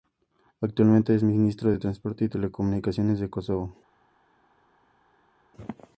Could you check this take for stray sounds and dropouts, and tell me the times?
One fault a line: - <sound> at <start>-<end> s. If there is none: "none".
none